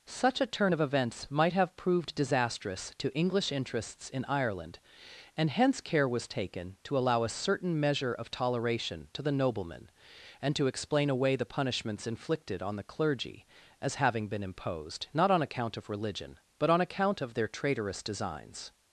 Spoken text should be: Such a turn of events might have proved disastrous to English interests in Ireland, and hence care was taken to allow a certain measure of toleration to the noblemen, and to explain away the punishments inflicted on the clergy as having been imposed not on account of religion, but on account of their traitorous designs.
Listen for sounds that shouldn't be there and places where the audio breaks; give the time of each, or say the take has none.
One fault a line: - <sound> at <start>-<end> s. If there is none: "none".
none